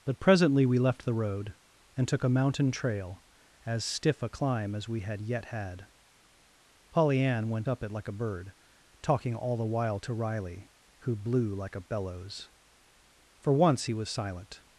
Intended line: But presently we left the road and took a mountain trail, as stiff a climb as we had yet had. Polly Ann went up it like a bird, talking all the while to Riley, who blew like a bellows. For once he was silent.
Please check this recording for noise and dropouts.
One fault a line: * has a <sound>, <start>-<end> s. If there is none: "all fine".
all fine